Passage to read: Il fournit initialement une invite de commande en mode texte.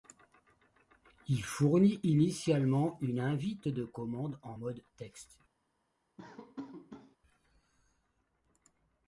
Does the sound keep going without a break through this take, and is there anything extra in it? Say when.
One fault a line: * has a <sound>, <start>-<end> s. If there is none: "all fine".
* has a laugh, 6.2-7.2 s